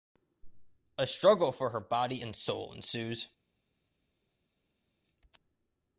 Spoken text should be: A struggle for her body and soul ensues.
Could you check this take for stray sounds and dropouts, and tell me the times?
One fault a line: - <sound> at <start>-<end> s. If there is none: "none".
none